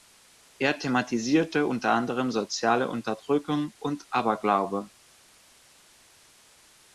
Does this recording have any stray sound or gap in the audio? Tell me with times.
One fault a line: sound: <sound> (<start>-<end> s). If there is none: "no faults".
no faults